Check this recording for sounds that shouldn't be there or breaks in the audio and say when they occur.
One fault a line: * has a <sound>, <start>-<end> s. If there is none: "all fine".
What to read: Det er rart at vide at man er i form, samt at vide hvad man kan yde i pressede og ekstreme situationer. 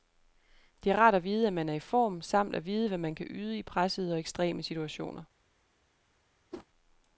* has a whoosh, 6.5-6.7 s